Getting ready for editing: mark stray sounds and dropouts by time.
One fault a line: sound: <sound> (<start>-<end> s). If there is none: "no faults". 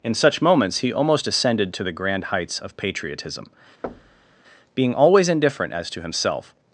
sound: thud (3.8-4.4 s)